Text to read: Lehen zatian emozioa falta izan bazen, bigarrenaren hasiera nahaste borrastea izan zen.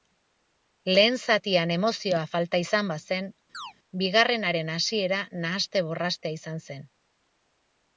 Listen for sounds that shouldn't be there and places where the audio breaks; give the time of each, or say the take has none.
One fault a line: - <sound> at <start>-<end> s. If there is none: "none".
- chirp at 3.5-3.7 s